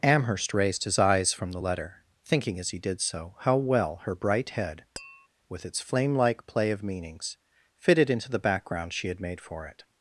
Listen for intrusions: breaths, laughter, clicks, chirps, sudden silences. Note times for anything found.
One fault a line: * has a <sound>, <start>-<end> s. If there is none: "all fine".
* has a tap, 5.0-5.3 s